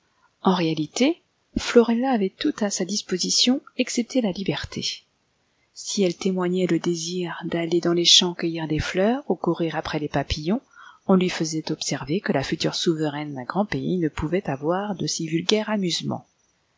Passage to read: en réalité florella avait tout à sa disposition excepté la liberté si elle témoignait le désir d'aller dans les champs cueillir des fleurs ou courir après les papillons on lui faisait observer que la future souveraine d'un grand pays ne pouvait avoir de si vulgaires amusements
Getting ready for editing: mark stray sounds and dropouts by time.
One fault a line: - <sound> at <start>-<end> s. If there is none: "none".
none